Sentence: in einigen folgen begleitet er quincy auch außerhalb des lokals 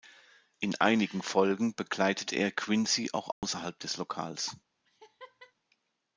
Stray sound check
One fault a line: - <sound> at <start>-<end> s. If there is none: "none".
- dropout at 3.3-3.4 s
- laugh at 4.8-5.5 s